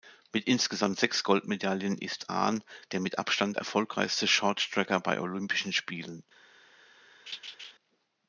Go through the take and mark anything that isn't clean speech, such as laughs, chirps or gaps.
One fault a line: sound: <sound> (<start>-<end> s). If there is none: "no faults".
sound: laugh (7.3-7.7 s)